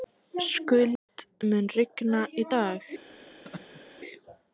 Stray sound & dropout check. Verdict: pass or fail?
fail